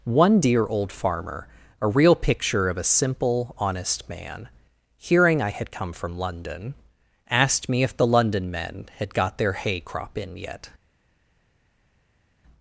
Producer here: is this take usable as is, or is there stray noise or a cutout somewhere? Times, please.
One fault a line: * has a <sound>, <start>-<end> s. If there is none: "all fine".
all fine